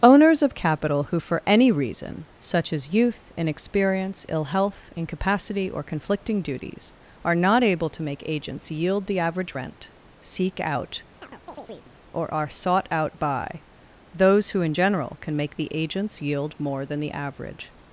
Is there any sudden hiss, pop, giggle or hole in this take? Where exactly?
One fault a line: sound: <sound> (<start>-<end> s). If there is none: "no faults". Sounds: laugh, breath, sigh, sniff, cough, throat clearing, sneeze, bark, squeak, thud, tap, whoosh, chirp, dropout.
sound: chirp (11.2-11.9 s)